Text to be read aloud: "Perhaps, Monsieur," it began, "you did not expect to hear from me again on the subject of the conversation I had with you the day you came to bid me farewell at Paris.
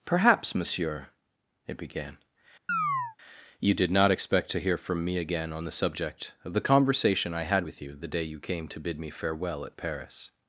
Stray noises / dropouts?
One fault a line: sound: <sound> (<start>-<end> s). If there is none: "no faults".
sound: chirp (2.7-3.2 s)